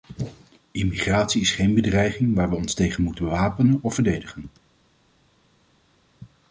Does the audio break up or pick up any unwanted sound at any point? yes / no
no